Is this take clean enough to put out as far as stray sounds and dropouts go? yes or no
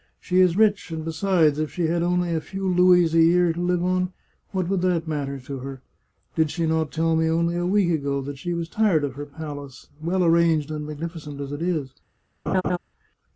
no